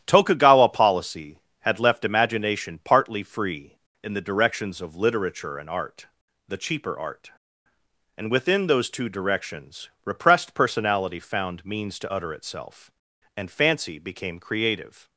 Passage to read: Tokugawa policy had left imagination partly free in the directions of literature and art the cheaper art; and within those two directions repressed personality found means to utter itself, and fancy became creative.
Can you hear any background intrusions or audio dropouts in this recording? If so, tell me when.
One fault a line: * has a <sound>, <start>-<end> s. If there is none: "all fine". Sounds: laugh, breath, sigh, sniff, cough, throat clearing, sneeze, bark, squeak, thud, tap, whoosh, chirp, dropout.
all fine